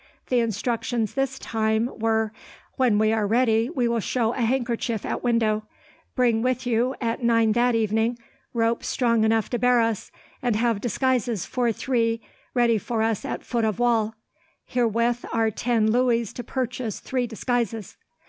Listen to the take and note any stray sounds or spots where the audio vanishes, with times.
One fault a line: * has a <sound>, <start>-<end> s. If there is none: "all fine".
all fine